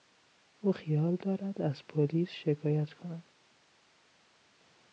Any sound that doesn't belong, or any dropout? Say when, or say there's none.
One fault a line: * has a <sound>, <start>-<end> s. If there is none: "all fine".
all fine